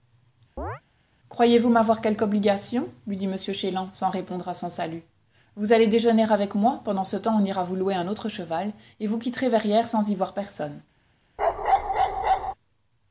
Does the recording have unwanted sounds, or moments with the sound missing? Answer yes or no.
yes